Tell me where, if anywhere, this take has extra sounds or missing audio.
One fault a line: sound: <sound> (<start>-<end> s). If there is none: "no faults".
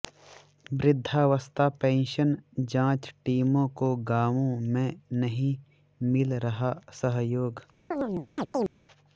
sound: chirp (7.9-8.7 s)